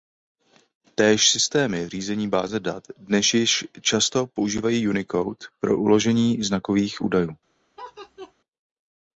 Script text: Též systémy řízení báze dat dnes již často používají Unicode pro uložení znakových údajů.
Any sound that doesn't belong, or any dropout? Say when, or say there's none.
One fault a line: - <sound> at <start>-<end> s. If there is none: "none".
- laugh at 7.8-8.3 s